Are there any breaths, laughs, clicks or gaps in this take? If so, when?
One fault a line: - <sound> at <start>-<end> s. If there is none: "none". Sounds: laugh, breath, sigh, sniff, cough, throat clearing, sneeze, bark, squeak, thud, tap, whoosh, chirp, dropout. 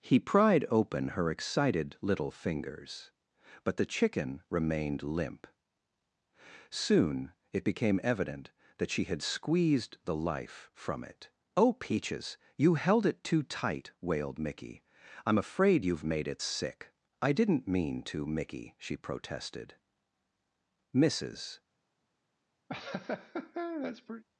- laugh at 22.7-24.2 s